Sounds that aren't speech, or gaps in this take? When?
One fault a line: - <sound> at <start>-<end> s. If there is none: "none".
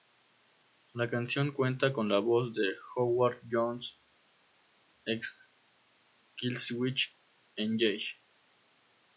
none